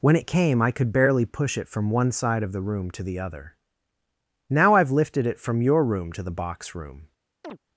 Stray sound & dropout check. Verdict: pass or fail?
fail